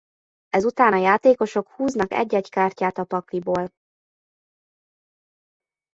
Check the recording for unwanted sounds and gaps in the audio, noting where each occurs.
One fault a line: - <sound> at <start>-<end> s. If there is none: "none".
none